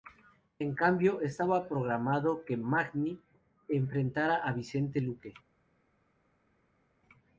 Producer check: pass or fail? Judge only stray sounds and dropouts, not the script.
pass